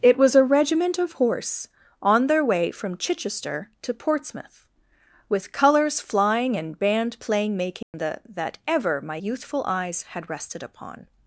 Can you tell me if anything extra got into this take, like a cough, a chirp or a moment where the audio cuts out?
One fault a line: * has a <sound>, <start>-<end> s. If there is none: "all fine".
* has a dropout, 7.8-7.9 s